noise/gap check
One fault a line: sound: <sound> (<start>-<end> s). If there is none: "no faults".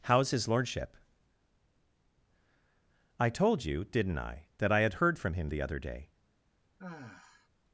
sound: sigh (6.8-7.5 s)